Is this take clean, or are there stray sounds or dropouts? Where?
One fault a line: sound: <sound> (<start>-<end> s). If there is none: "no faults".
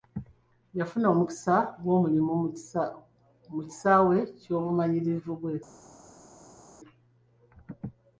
no faults